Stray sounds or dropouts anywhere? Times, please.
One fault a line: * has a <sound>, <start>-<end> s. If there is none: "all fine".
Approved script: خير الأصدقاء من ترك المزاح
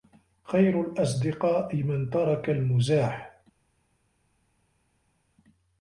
all fine